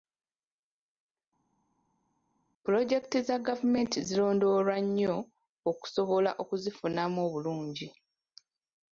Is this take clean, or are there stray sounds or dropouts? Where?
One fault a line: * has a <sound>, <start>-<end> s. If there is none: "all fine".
all fine